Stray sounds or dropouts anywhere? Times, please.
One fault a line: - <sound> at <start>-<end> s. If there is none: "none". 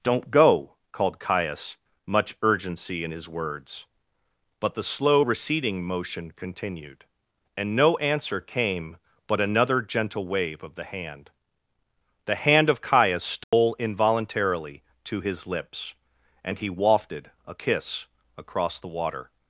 - dropout at 13.4-13.5 s